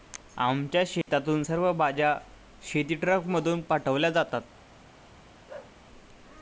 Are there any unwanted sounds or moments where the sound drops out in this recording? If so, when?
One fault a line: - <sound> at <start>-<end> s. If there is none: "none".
- dropout at 1.0-1.1 s
- bark at 5.5-5.8 s